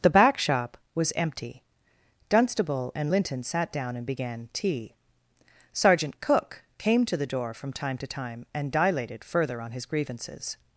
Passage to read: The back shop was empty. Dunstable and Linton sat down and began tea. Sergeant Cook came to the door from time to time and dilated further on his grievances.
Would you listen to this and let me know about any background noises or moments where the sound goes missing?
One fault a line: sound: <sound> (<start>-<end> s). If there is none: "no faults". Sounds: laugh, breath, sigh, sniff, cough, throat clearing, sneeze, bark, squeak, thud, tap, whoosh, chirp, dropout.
no faults